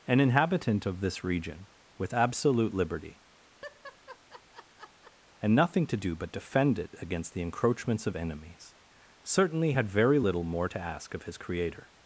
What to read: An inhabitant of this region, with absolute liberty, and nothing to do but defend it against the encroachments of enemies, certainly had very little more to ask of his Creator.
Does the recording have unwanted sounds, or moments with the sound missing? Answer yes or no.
yes